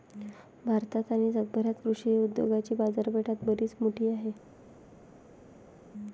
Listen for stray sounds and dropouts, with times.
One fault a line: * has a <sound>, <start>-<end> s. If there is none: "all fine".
all fine